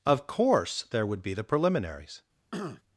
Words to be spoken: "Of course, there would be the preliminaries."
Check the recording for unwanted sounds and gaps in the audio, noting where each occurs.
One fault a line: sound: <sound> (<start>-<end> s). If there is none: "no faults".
sound: throat clearing (2.5-2.8 s)